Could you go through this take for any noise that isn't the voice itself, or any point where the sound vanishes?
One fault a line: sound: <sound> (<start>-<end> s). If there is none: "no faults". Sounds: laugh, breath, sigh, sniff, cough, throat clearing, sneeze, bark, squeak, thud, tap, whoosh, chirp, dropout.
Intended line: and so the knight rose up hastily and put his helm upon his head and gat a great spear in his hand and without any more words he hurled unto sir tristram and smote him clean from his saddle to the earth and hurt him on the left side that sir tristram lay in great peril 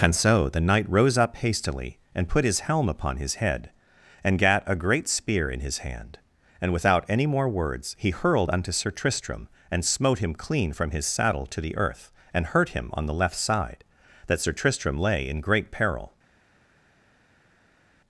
no faults